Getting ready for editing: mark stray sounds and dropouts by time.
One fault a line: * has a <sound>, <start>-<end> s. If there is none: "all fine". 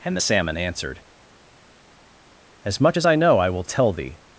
all fine